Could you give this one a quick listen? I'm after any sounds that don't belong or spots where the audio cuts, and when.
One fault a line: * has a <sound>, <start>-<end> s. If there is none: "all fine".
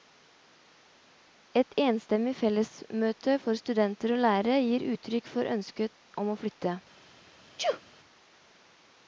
* has a sneeze, 7.6-7.8 s